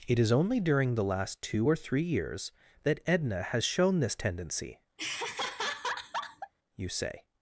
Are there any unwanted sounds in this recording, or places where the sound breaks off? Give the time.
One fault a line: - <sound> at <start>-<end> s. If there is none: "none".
- laugh at 5.0-6.5 s